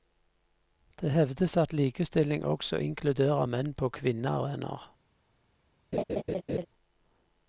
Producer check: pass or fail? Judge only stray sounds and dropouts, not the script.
fail